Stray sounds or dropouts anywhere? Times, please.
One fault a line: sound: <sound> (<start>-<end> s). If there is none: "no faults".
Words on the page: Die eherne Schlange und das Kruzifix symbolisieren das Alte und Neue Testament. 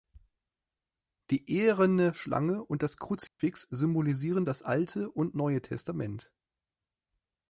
sound: dropout (3.3-3.4 s)